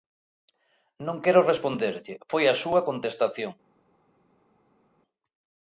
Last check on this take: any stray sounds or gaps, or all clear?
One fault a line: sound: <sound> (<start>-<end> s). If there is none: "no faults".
no faults